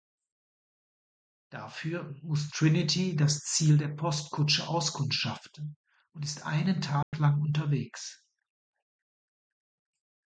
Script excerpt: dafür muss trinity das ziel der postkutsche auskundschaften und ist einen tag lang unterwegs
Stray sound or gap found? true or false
true